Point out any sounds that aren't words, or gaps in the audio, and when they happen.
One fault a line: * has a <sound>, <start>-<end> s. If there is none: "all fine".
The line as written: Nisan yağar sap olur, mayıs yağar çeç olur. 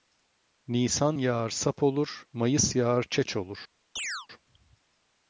* has a chirp, 4.0-4.3 s